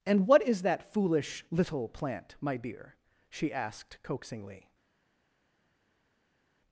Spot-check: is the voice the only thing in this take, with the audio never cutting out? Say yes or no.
yes